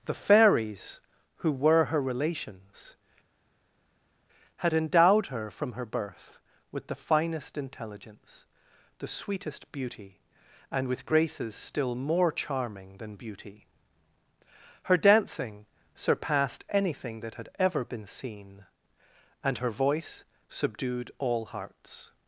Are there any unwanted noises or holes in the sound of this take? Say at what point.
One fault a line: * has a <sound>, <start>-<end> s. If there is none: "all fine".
all fine